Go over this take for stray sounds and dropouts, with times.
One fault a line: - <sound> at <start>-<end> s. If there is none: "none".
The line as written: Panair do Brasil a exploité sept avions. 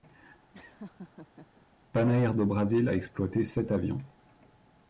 - laugh at 0.5-1.7 s